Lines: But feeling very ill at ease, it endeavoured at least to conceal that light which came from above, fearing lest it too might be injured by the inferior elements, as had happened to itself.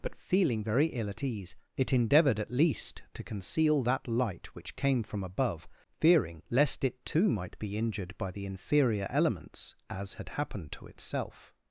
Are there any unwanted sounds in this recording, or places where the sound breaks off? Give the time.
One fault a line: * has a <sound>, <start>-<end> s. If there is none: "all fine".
all fine